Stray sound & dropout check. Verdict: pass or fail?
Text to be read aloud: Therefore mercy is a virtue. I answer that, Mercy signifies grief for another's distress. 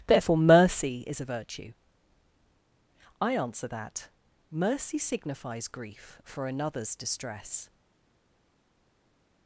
pass